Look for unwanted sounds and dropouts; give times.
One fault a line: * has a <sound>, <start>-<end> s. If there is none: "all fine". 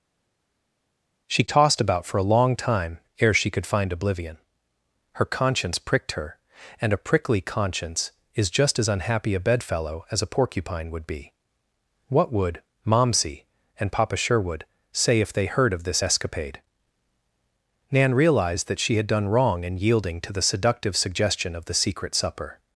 all fine